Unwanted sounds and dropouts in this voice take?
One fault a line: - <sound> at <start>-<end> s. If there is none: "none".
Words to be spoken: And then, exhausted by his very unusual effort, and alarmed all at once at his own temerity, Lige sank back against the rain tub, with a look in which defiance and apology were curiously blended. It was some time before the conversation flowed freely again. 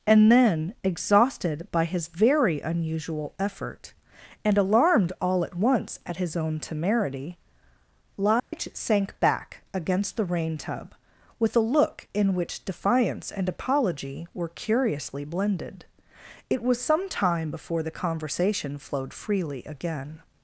- dropout at 8.4-8.5 s